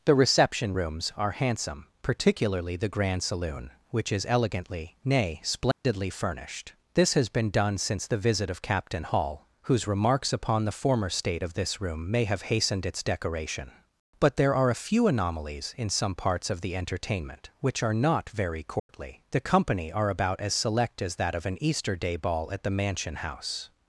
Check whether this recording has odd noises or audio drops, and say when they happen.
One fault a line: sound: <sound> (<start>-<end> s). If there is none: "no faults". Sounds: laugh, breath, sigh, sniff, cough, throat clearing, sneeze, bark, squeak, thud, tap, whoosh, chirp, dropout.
sound: dropout (5.7-5.8 s)
sound: dropout (18.8-18.9 s)